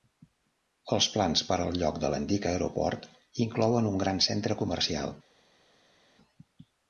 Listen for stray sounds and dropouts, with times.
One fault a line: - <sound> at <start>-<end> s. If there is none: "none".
none